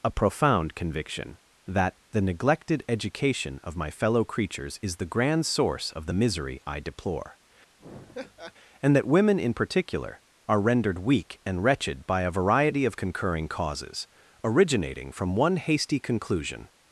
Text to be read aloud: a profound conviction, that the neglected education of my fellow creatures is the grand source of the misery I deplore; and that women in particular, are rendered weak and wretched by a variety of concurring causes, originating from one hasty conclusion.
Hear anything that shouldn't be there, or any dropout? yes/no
yes